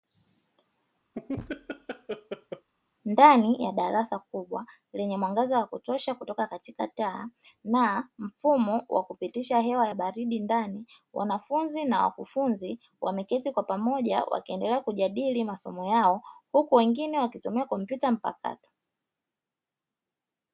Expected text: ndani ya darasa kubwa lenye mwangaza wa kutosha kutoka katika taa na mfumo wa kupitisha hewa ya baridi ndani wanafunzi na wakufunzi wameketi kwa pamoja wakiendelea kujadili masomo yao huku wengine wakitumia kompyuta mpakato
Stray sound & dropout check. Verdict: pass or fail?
fail